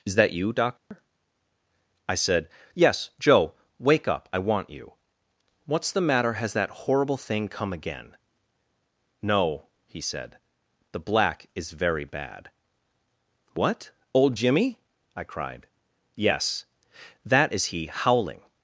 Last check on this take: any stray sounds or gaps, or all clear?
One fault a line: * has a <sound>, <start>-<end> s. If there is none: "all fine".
* has a dropout, 0.8-0.9 s